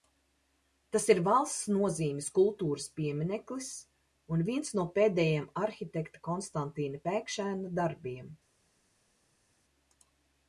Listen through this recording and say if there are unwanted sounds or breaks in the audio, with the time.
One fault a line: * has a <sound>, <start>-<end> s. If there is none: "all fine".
all fine